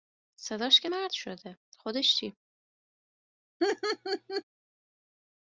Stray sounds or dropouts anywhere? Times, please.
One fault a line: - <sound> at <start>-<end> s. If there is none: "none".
- laugh at 3.6-4.4 s